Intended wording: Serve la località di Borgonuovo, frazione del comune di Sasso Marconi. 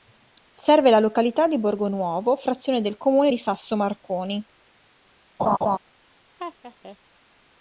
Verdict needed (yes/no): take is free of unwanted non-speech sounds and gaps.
no